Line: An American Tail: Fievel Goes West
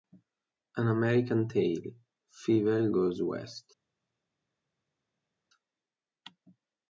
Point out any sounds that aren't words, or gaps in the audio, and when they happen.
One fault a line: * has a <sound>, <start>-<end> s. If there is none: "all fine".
all fine